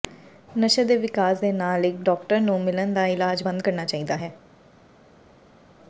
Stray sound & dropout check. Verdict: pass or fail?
pass